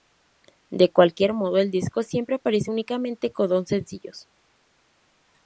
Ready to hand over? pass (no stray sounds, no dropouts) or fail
pass